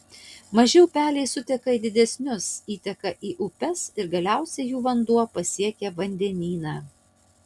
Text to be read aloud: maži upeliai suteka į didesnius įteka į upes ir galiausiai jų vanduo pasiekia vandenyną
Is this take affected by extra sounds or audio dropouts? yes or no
no